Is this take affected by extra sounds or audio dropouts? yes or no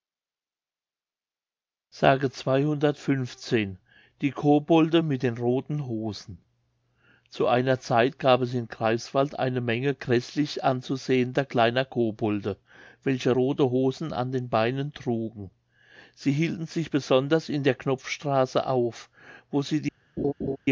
yes